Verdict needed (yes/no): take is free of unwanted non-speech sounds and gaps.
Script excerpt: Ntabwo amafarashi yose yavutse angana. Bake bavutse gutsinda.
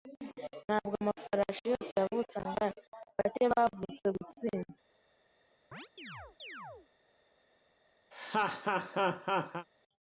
no